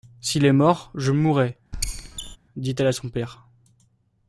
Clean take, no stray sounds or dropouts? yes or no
no